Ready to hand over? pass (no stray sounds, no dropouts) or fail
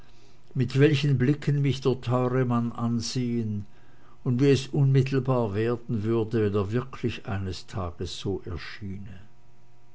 pass